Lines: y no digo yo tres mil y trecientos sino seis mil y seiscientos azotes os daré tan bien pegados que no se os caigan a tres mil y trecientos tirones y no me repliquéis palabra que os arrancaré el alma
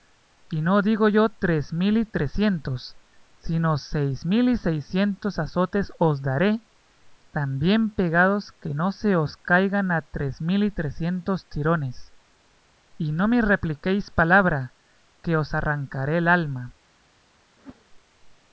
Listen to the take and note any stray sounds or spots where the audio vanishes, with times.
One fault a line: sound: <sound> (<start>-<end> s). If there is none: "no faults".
sound: whoosh (17.6-17.8 s)